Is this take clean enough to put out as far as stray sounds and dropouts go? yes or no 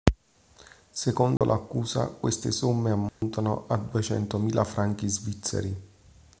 no